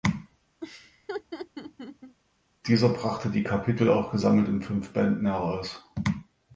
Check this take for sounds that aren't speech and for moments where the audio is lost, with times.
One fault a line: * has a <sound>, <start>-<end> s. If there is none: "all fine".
* has a laugh, 0.6-2.2 s